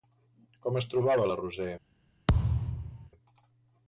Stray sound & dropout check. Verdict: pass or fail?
fail